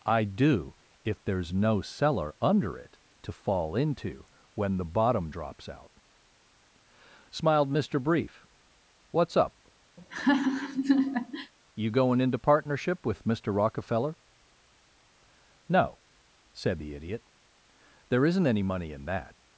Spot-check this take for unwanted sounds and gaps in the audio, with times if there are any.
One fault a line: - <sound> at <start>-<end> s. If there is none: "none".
- laugh at 10.0-11.5 s